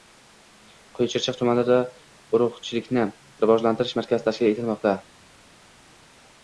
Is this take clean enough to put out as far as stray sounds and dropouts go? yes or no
yes